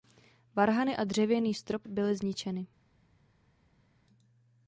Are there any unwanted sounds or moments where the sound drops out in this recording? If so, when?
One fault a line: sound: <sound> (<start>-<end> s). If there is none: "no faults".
no faults